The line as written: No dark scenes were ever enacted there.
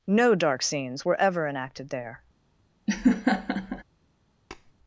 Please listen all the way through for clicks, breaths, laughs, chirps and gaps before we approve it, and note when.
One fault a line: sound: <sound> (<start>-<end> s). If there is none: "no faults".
sound: laugh (2.9-3.8 s)
sound: tap (4.5-4.7 s)